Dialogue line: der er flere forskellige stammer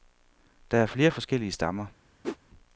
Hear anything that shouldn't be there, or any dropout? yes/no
yes